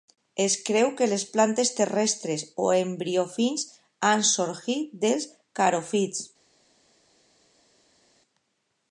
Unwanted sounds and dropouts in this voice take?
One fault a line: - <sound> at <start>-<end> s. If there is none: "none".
none